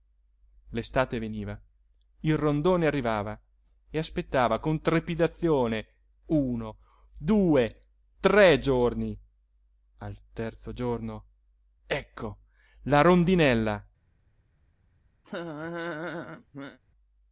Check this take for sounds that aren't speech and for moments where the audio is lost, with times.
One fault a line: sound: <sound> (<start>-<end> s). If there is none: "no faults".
sound: laugh (15.2-16.8 s)